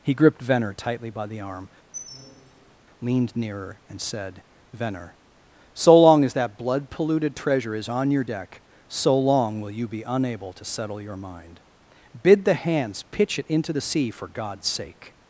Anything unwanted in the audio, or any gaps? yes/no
yes